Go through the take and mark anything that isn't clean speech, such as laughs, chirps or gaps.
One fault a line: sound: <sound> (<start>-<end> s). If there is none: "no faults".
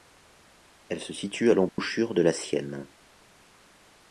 sound: dropout (1.7-1.8 s)